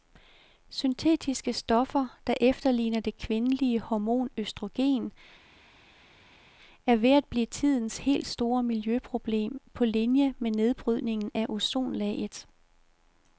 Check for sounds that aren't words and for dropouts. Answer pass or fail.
pass